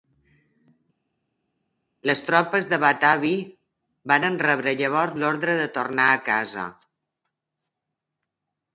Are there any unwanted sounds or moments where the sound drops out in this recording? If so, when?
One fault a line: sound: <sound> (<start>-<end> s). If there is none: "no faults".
no faults